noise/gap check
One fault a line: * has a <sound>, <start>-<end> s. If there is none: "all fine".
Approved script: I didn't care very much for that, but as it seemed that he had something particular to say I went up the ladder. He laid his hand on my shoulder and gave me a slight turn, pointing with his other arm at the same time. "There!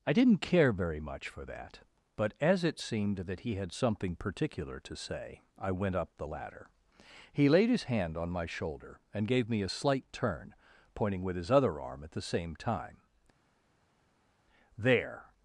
all fine